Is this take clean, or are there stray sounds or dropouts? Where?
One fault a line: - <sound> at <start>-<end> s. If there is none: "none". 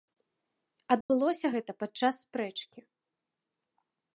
- dropout at 1.0-1.1 s